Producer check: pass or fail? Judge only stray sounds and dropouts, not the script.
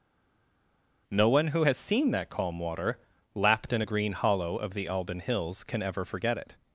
pass